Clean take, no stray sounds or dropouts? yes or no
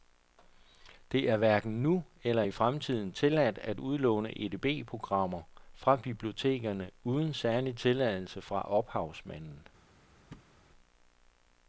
no